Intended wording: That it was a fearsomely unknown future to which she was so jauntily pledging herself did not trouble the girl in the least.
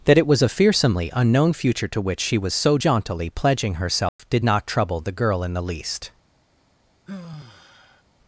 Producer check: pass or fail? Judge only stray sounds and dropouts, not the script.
fail